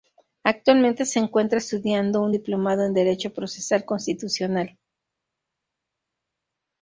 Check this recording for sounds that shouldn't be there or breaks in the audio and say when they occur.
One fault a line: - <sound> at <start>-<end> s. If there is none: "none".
none